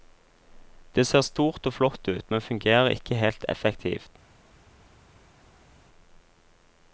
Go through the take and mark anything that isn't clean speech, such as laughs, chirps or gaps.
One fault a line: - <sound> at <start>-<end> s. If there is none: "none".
none